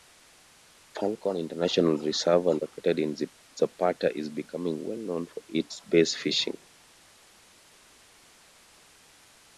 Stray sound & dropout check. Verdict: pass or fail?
pass